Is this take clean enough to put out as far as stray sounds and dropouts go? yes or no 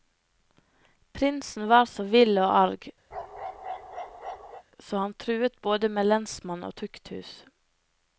no